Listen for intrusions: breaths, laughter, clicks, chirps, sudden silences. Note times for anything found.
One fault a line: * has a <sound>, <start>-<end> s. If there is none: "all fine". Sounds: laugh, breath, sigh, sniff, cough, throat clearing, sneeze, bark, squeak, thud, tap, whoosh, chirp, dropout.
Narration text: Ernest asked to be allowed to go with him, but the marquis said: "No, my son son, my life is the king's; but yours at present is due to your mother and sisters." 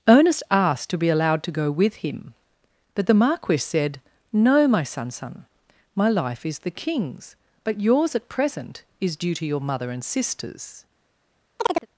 * has a chirp, 11.6-11.9 s